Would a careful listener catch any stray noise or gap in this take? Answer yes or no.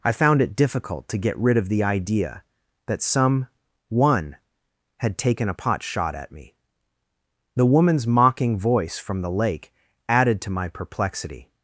no